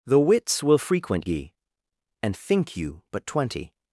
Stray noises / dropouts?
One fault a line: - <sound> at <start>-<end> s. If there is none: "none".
none